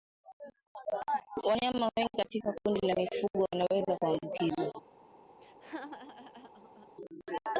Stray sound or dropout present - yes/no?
yes